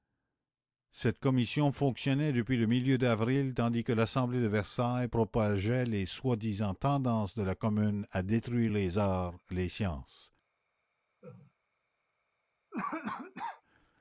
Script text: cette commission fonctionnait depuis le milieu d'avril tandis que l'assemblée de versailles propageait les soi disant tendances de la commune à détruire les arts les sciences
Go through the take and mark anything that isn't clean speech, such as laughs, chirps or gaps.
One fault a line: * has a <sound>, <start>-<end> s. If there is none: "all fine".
* has a laugh, 11.2-11.5 s
* has a cough, 12.7-13.6 s